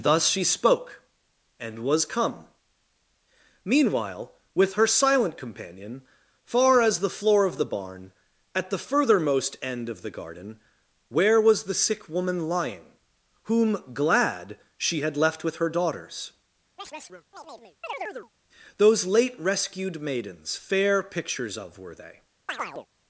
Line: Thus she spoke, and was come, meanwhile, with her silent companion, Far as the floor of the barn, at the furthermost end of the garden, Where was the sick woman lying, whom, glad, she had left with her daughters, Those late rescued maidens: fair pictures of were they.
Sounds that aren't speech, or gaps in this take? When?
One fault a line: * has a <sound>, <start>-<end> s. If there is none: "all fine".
* has a chirp, 16.8-18.3 s
* has a chirp, 22.5-22.9 s